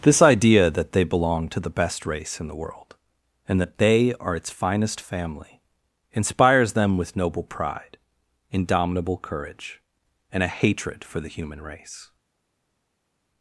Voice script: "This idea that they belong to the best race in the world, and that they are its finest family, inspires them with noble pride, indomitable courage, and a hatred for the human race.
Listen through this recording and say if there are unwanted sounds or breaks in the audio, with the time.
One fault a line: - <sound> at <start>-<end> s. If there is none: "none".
none